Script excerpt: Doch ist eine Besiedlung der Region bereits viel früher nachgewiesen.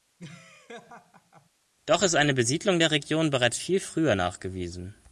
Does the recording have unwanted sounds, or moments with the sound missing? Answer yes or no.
yes